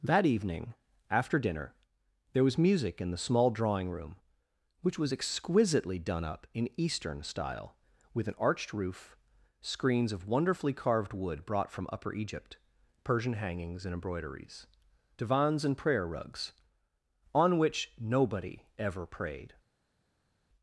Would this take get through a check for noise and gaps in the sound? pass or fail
pass